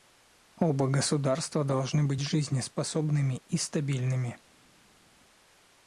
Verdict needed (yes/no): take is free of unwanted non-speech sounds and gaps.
yes